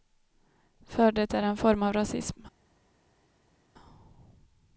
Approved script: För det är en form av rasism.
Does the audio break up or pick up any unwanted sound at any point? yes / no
no